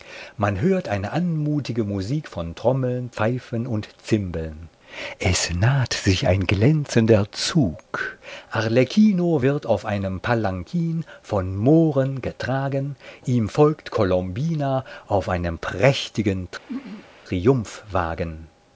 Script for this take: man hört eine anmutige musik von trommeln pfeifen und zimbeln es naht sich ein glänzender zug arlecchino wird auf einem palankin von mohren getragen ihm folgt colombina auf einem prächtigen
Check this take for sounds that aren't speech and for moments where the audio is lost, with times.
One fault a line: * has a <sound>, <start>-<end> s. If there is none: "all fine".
* has a throat clearing, 16.7-17.1 s